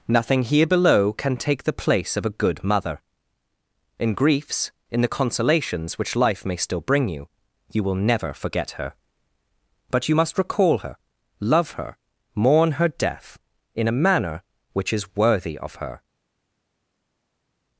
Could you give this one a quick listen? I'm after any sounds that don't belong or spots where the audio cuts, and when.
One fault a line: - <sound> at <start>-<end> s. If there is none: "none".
none